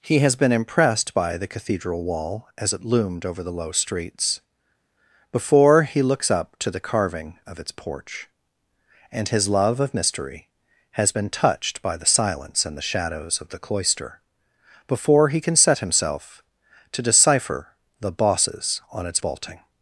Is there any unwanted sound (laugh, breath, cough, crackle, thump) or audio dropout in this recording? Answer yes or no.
no